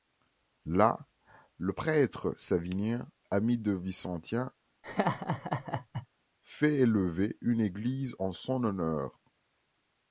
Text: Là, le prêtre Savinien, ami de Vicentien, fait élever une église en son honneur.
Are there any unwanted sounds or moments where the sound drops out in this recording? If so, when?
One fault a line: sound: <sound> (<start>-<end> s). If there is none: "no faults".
sound: laugh (4.8-6.1 s)